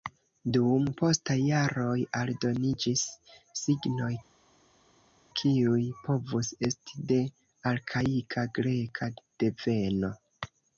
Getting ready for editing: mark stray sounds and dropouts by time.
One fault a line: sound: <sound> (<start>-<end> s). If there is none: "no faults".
no faults